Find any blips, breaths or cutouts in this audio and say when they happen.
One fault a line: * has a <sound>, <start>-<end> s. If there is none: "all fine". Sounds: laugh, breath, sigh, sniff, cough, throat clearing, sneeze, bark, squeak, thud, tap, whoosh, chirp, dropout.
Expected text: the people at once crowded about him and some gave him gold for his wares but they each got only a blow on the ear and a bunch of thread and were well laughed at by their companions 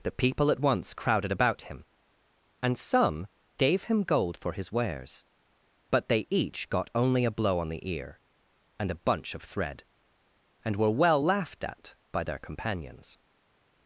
all fine